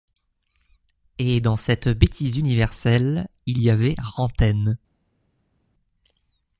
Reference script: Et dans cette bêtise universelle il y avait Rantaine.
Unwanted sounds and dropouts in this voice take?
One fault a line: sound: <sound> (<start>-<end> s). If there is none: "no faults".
no faults